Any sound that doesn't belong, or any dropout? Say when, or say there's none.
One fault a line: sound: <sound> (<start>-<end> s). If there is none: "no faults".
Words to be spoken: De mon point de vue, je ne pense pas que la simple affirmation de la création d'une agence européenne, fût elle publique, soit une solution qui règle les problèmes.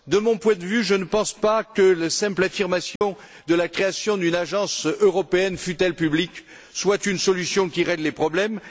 sound: dropout (3.0-3.0 s)